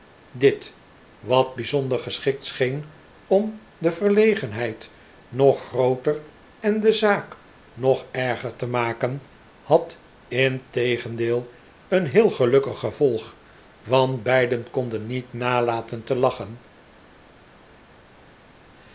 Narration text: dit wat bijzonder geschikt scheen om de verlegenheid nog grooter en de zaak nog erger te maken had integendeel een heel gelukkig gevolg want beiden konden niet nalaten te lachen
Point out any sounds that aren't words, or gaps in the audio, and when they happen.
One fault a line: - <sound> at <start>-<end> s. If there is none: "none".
none